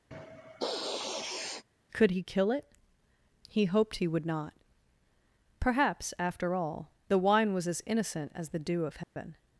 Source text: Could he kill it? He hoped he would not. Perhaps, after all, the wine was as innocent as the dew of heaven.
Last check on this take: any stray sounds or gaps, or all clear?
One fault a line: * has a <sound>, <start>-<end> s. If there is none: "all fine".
* has a sniff, 0.1-1.6 s
* has a dropout, 9.0-9.2 s